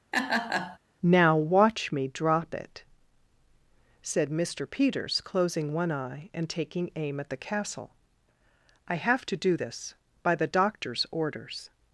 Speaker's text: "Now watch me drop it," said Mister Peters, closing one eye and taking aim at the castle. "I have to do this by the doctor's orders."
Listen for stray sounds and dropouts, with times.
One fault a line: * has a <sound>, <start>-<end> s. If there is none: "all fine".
* has a laugh, 0.1-0.8 s